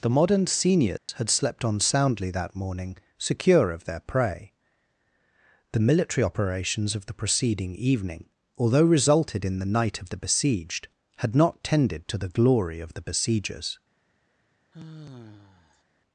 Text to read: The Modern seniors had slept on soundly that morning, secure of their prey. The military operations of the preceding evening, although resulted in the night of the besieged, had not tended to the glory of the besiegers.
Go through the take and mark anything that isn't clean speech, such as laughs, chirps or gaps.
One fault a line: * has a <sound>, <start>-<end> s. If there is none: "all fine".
* has a dropout, 1.0-1.1 s
* has a sigh, 14.7-15.8 s